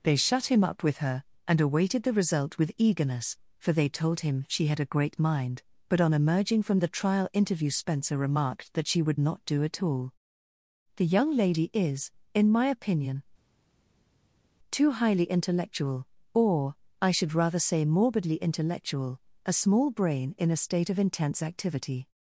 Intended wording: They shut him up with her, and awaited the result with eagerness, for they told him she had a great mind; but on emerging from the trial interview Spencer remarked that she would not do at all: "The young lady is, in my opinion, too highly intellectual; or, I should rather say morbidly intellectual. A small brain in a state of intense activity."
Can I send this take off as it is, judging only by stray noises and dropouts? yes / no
yes